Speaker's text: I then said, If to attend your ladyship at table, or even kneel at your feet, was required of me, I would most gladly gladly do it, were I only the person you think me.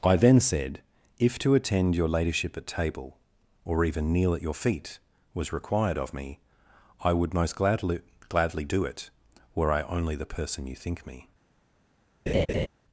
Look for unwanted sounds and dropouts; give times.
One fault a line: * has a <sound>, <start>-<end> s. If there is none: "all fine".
* has a laugh, 12.3-12.7 s